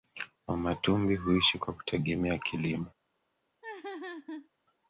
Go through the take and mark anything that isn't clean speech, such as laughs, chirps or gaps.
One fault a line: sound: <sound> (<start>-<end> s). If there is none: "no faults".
sound: laugh (3.6-4.5 s)